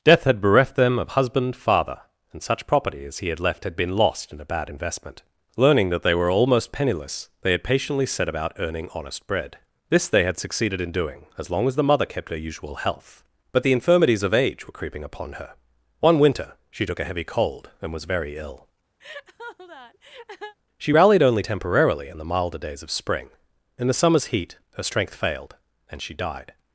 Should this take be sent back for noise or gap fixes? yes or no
yes